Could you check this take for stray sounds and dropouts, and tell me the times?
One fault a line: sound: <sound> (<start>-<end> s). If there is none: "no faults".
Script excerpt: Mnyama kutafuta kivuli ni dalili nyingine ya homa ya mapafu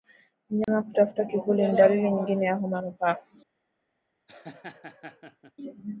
sound: dropout (0.6-0.7 s)
sound: laugh (4.3-5.5 s)